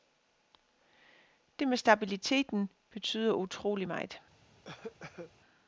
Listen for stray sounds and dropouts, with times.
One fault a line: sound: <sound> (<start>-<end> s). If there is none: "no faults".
sound: cough (4.6-5.3 s)